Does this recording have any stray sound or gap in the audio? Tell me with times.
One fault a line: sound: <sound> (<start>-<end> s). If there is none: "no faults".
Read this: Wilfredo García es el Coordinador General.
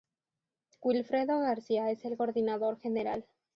no faults